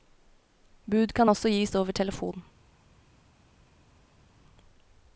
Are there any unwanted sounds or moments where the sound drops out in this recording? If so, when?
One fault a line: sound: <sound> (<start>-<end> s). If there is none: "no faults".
no faults